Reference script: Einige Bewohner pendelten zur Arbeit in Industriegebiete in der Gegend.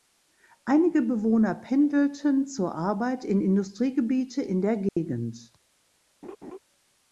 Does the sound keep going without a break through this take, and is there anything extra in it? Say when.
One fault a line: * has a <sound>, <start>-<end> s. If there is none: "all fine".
* has a dropout, 4.9-5.0 s
* has a laugh, 6.2-6.6 s